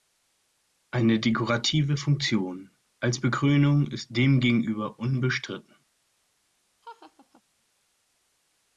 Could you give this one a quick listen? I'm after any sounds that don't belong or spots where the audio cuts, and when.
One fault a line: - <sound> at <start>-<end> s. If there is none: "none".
- laugh at 6.8-7.4 s